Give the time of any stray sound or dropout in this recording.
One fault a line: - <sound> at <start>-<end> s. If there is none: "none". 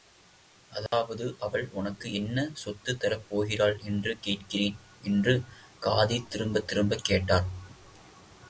- dropout at 0.9-0.9 s